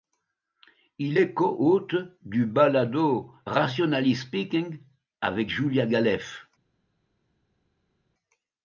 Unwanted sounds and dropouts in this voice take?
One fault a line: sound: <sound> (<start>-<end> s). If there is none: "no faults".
no faults